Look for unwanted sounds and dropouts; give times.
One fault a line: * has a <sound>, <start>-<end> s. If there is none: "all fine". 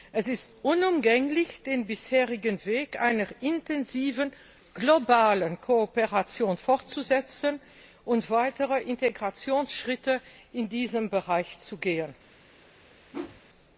* has a whoosh, 13.1-13.4 s